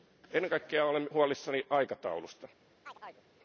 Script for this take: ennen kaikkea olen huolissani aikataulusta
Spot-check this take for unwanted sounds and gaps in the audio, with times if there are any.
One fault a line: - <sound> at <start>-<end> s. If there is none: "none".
- chirp at 2.8-3.3 s